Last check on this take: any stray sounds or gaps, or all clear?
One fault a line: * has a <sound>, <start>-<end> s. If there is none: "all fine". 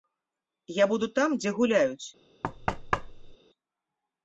* has a thud, 2.4-3.4 s